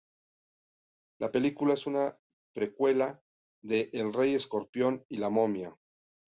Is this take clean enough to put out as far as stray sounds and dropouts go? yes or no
yes